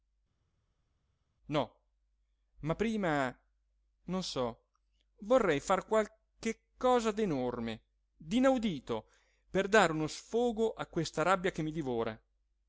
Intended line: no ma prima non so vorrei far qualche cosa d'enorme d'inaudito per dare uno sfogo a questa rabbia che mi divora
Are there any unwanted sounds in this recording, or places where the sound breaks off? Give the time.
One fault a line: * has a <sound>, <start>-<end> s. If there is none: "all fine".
all fine